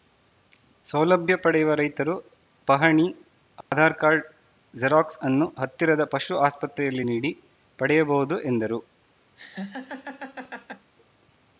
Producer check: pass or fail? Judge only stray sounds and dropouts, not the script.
fail